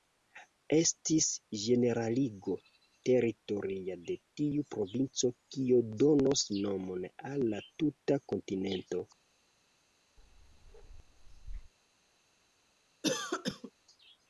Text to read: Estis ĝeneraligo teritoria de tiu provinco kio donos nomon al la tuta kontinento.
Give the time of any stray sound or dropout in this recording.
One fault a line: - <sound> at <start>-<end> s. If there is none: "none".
- bark at 10.2-11.7 s
- cough at 13.0-13.7 s